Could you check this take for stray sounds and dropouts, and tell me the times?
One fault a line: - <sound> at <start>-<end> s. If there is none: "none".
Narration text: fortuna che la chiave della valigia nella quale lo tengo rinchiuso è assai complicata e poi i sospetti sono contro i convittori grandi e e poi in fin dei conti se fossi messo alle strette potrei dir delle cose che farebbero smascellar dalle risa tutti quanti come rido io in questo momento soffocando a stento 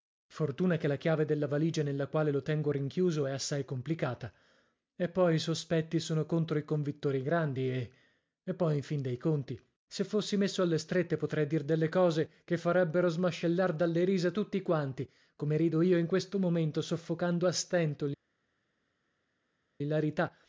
none